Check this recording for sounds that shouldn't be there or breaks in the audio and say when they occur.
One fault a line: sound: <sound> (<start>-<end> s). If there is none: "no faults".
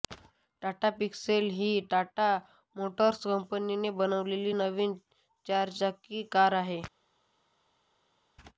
no faults